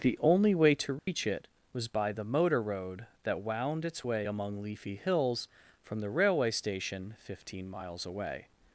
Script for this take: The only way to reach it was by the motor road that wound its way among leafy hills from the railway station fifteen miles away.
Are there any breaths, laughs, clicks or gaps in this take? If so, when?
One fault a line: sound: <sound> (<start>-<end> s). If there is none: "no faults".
sound: dropout (1.0-1.1 s)